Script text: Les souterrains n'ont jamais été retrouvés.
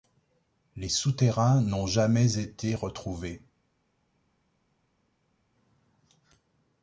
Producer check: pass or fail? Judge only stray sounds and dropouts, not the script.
pass